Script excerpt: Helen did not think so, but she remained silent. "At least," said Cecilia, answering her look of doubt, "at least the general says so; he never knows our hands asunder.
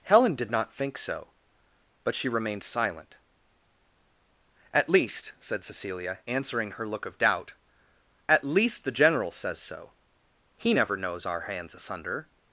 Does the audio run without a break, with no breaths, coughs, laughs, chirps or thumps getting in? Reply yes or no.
yes